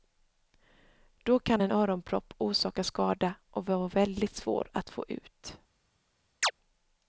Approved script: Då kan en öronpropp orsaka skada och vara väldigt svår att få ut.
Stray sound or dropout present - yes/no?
yes